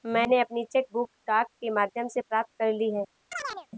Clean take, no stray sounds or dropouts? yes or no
no